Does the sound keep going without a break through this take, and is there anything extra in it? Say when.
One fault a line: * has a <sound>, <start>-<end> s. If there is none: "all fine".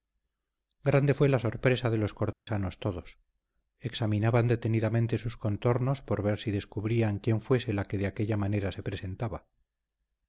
* has a dropout, 2.3-2.5 s